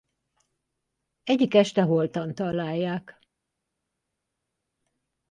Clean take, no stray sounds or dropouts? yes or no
yes